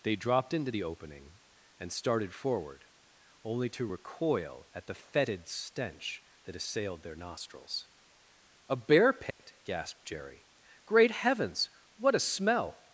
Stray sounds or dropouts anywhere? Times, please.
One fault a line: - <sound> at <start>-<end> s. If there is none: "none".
- dropout at 9.3-9.4 s